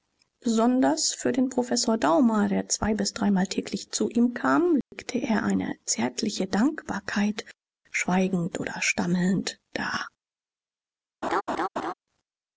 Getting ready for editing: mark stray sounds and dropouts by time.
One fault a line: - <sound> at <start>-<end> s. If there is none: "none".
- dropout at 4.8-4.9 s
- laugh at 11.2-11.9 s